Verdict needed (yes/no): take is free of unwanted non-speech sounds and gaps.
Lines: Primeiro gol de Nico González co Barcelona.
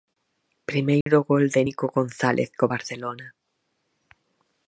no